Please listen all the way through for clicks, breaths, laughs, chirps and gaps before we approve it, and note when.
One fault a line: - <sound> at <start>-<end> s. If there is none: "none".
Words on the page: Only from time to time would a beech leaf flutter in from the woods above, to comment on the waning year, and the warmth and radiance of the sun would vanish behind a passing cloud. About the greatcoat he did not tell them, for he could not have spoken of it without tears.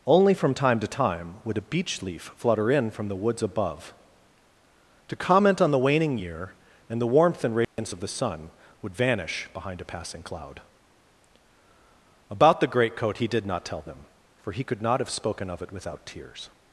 - dropout at 7.6-7.8 s